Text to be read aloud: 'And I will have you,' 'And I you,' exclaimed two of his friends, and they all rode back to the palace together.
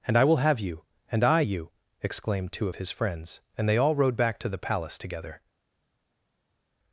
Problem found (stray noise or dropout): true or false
false